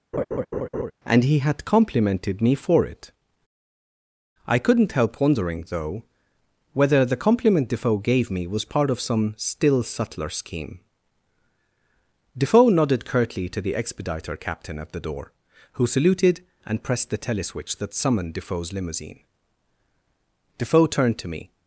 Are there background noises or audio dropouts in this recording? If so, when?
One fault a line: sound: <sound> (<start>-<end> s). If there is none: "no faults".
sound: laugh (0.1-0.9 s)